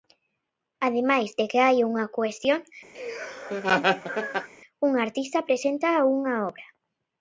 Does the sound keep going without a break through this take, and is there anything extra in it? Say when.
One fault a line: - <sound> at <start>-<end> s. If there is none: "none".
- laugh at 2.9-4.5 s